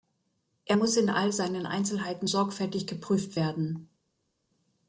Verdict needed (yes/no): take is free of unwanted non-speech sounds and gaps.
yes